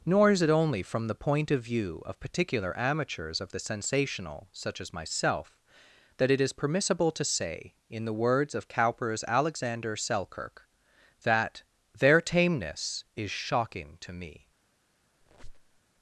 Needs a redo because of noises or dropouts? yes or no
yes